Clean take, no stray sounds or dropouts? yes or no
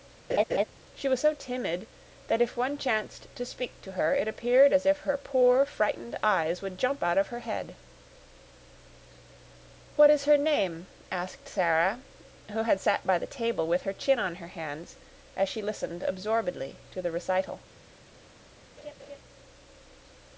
no